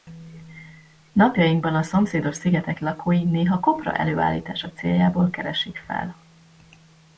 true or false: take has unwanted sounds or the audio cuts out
false